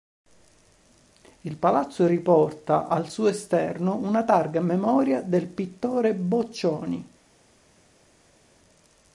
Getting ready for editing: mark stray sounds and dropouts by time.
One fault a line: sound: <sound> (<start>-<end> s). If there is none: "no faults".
no faults